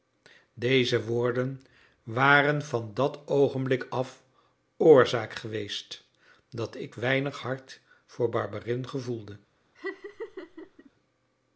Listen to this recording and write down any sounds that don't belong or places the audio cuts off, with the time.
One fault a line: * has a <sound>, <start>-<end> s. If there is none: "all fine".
* has a laugh, 9.8-10.9 s